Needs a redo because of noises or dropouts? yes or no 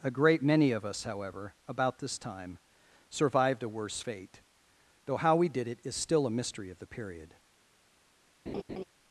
yes